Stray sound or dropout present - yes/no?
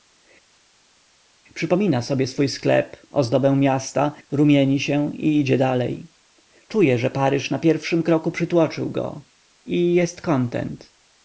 no